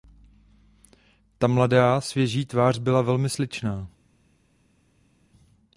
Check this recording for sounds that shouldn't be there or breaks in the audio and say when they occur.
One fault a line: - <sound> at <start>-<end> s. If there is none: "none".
none